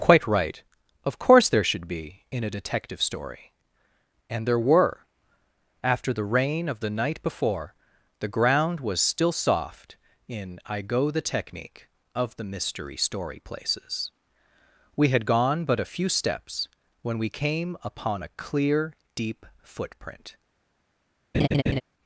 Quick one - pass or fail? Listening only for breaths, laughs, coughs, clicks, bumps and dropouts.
fail